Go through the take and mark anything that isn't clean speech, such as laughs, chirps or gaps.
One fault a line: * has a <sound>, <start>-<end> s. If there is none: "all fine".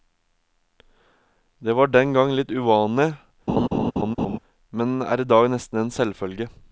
* has a laugh, 3.5-4.4 s